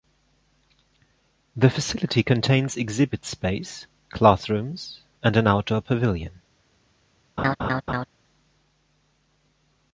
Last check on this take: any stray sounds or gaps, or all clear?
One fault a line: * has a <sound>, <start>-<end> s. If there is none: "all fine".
* has a laugh, 7.4-8.1 s